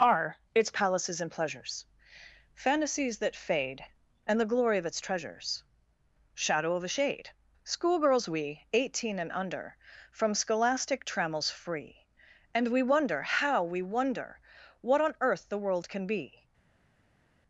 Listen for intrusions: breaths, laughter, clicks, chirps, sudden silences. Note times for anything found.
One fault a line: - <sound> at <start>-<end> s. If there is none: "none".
none